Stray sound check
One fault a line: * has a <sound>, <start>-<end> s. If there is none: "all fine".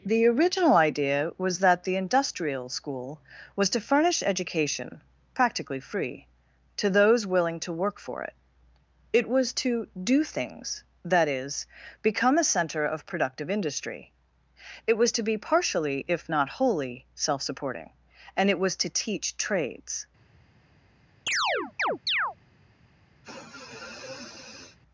* has a chirp, 21.3-22.4 s
* has a sniff, 23.2-24.8 s